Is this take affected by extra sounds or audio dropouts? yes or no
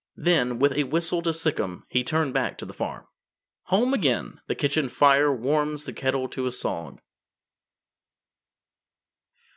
no